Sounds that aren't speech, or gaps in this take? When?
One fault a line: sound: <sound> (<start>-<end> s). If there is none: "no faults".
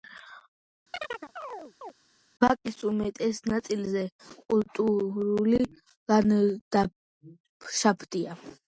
sound: chirp (0.9-1.9 s)